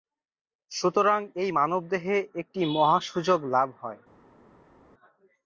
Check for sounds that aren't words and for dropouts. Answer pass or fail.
pass